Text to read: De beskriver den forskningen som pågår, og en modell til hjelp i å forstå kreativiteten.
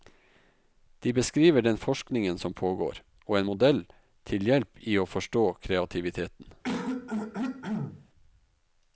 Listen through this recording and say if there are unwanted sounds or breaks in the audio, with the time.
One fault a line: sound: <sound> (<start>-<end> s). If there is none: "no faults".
sound: throat clearing (6.6-8.1 s)